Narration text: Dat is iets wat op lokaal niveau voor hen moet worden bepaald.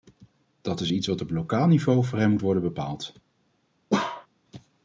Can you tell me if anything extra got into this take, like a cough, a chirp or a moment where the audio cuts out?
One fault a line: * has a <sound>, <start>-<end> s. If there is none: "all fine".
* has a bark, 3.9-4.3 s